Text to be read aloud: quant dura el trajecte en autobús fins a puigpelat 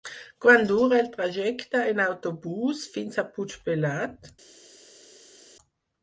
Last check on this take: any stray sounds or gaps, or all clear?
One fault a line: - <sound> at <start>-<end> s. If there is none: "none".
none